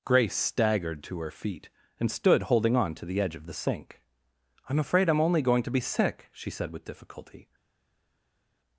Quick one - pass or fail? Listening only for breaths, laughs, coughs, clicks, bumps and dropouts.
pass